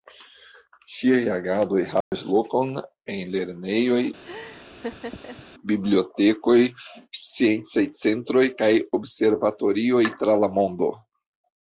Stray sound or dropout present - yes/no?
yes